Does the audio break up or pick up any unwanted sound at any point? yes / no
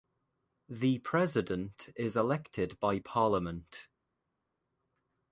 no